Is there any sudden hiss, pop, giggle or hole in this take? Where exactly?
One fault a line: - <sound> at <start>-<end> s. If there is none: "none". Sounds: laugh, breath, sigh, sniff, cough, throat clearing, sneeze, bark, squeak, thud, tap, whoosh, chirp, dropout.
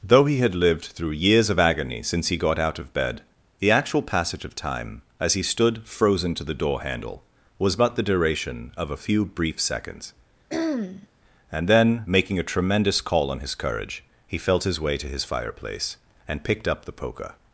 - throat clearing at 10.5-11.1 s